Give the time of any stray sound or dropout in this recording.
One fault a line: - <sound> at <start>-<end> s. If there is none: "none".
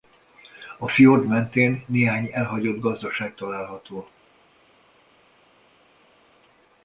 none